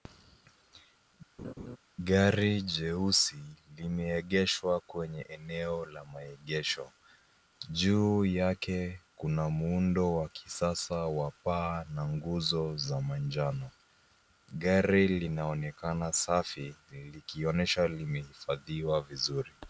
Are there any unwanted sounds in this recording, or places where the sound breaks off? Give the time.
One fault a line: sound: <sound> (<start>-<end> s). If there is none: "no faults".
sound: laugh (1.4-1.8 s)